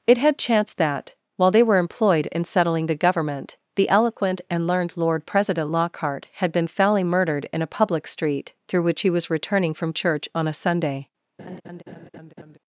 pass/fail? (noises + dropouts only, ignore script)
fail